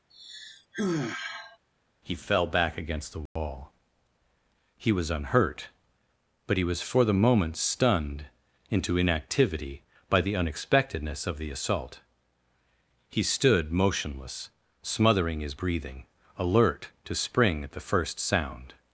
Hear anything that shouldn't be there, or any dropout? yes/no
yes